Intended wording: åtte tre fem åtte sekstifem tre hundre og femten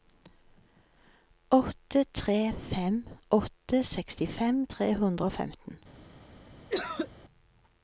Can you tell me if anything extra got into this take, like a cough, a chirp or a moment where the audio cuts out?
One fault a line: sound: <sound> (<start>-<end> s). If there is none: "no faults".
sound: cough (6.7-7.1 s)